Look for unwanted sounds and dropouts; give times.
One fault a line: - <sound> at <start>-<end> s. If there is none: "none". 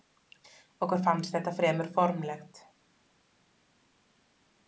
none